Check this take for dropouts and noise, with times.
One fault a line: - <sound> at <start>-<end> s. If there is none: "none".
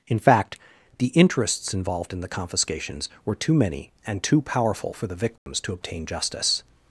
- dropout at 5.4-5.5 s